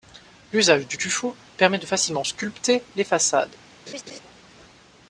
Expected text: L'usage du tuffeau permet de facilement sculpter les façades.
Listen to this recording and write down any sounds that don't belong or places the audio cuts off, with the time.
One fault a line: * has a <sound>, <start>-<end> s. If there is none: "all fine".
* has a laugh, 3.9-4.2 s